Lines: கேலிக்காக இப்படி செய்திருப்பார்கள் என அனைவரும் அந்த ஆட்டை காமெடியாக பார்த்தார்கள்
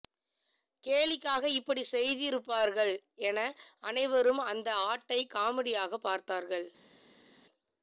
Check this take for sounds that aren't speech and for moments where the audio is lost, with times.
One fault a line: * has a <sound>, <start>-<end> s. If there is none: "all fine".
all fine